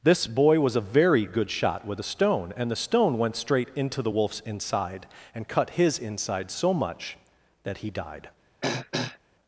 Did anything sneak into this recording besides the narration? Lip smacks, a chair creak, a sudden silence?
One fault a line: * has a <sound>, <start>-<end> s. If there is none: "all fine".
* has a throat clearing, 8.6-9.2 s